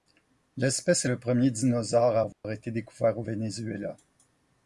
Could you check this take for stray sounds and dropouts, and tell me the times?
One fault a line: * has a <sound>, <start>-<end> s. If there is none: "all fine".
* has a dropout, 2.3-2.4 s